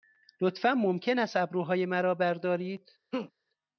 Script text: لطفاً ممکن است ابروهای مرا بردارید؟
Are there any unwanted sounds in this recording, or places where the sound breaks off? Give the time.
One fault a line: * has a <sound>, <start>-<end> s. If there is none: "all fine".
* has a laugh, 3.1-3.3 s